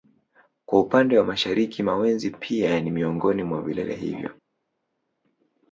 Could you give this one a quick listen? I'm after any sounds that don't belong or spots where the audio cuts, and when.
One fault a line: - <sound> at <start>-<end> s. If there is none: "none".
none